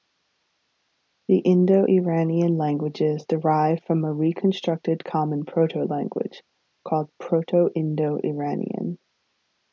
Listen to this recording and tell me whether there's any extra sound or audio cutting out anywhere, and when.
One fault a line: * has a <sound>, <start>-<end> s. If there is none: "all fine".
all fine